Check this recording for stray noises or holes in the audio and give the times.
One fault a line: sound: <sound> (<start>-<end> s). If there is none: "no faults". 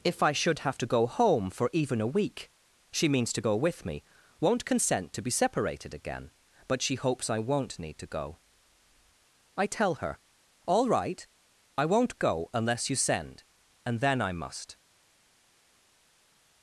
no faults